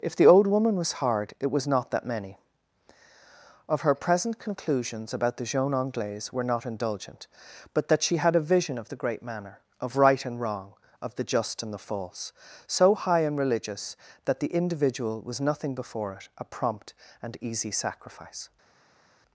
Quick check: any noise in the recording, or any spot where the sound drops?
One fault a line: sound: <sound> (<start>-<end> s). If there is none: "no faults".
no faults